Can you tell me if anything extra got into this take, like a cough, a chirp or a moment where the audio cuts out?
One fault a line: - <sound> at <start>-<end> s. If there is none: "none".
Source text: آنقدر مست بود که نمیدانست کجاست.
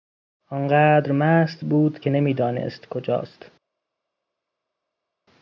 none